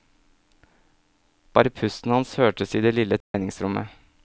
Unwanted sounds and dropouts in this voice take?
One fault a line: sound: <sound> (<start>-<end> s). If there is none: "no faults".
sound: dropout (3.2-3.3 s)